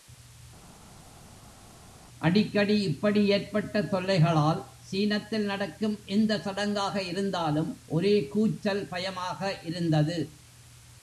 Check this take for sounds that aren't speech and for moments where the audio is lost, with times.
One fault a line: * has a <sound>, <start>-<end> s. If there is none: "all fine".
all fine